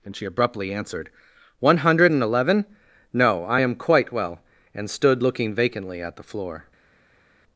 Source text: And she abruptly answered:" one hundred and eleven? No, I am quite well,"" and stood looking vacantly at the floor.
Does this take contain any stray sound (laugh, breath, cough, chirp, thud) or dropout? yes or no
no